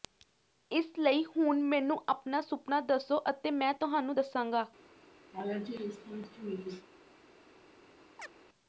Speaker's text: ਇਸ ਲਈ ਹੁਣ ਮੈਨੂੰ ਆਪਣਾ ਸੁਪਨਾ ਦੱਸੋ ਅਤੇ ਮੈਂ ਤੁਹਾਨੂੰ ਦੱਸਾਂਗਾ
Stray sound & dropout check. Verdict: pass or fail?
fail